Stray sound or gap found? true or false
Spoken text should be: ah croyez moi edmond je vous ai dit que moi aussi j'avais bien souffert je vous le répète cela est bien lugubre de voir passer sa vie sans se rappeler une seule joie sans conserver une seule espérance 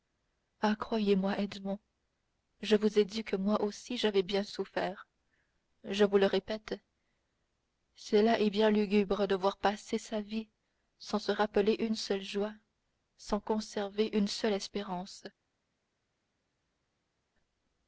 false